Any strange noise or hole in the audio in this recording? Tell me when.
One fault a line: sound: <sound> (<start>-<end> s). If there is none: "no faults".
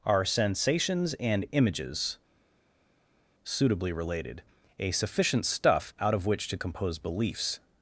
no faults